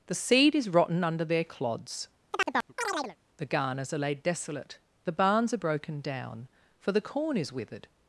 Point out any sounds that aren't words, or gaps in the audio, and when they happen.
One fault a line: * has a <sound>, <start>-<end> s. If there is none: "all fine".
* has a chirp, 2.3-3.2 s